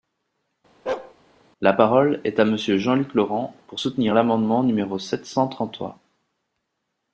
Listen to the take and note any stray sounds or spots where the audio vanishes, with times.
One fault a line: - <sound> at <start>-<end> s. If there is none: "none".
- bark at 0.9-1.1 s